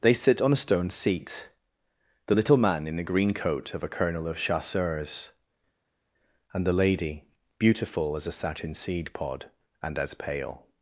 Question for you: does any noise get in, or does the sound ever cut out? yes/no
no